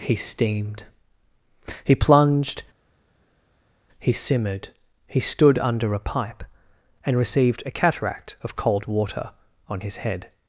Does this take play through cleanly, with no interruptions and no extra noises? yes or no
yes